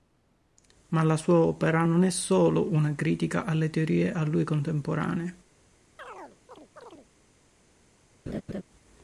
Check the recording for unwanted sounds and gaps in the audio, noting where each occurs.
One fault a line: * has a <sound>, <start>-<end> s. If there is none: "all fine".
* has a chirp, 6.0-7.1 s
* has a laugh, 8.3-8.6 s